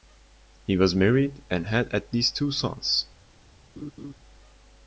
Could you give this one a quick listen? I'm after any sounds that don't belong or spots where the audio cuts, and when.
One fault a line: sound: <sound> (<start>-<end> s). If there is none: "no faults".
sound: laugh (3.8-4.1 s)